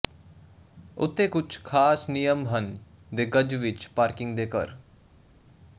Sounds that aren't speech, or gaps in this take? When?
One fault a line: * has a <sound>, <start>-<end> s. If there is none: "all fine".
all fine